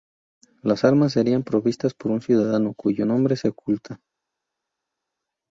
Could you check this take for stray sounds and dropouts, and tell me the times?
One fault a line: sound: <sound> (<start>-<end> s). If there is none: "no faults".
no faults